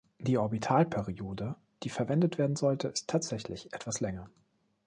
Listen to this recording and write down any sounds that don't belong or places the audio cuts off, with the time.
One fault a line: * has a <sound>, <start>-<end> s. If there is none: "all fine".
all fine